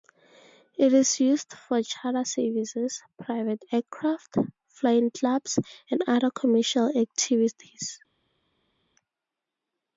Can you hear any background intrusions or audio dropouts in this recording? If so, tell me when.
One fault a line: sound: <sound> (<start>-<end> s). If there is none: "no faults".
no faults